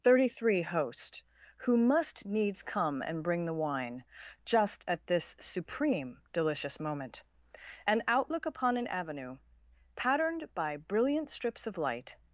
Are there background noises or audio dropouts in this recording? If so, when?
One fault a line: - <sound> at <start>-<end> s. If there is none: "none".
none